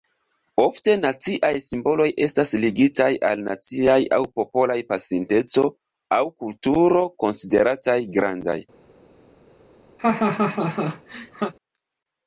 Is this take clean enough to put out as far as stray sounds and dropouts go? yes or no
no